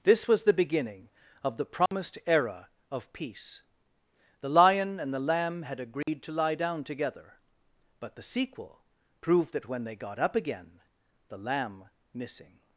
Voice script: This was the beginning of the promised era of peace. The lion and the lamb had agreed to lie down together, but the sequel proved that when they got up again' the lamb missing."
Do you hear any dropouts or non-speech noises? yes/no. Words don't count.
yes